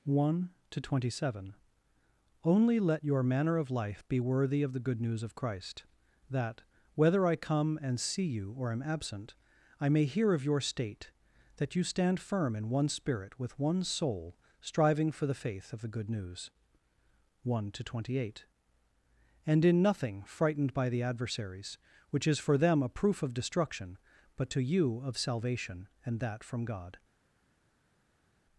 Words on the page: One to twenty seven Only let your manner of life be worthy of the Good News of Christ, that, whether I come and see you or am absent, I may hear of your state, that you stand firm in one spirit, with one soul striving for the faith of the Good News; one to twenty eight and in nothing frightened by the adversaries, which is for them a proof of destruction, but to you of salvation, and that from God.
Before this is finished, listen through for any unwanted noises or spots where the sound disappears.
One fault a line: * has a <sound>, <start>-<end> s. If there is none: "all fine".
all fine